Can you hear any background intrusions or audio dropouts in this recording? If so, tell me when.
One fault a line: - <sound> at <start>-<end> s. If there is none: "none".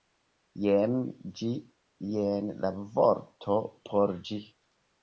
none